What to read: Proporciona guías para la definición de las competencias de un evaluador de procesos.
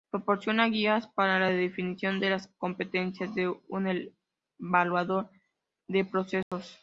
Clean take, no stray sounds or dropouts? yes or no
no